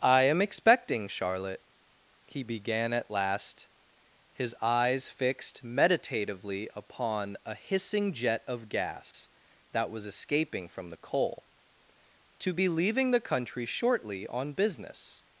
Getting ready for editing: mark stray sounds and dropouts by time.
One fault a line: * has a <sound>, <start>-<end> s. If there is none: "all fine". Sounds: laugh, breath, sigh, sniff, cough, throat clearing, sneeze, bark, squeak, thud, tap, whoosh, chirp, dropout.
* has a dropout, 9.1-9.1 s